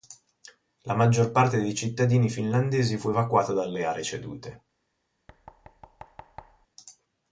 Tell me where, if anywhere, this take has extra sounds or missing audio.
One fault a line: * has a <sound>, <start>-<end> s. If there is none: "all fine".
* has a thud, 5.3-6.7 s